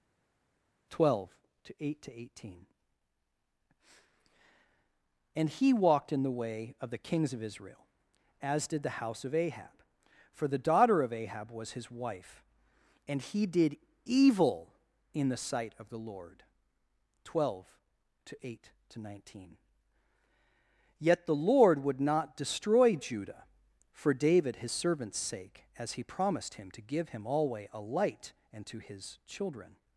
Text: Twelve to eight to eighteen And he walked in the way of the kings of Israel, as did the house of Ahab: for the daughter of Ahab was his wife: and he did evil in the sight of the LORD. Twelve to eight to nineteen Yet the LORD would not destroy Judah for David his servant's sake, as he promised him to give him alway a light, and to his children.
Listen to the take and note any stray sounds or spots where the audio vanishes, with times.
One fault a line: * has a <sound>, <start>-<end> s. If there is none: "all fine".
all fine